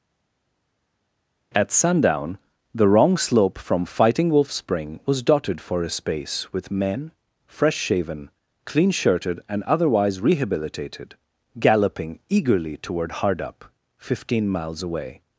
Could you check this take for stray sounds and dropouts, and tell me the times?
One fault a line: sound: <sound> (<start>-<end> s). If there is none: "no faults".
no faults